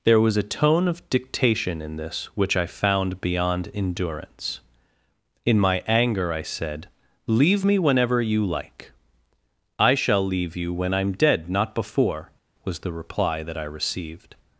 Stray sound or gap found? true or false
false